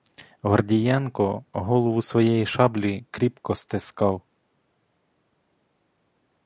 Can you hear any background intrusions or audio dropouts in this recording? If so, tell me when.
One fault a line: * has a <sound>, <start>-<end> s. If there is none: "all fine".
all fine